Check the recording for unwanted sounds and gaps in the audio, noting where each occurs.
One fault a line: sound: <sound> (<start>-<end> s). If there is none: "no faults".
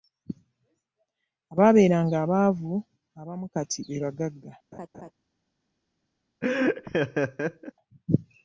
sound: laugh (4.7-5.1 s)
sound: laugh (6.4-7.7 s)